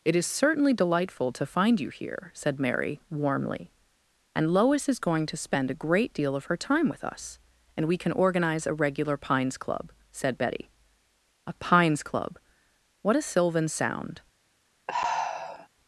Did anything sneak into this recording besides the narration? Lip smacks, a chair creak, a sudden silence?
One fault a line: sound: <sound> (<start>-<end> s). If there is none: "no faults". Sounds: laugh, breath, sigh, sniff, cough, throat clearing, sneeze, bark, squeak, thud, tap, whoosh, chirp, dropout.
sound: sigh (14.9-15.7 s)